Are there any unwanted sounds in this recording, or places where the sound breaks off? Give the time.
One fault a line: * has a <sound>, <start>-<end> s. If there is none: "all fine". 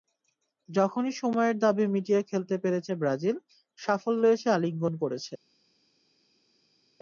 all fine